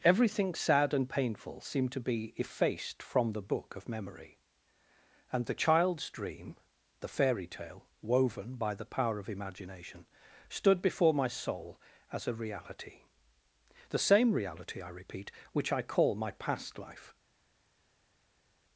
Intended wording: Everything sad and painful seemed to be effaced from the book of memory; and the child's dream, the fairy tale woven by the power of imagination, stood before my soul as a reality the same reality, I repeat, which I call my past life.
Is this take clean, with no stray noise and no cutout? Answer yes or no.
yes